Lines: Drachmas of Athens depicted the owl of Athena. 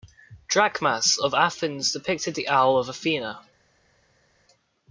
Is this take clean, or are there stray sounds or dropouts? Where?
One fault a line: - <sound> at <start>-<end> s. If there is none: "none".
none